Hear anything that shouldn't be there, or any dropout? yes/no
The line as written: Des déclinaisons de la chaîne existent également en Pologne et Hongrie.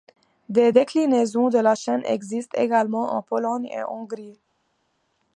no